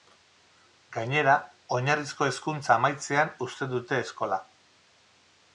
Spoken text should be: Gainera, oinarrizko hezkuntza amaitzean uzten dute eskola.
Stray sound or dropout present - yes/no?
no